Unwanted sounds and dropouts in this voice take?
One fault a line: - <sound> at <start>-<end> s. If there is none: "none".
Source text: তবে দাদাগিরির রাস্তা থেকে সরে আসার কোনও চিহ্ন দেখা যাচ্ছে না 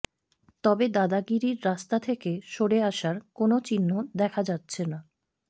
none